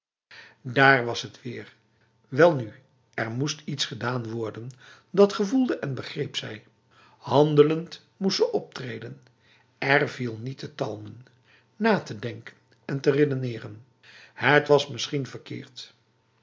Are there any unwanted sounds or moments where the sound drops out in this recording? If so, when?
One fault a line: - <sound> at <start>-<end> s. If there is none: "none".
none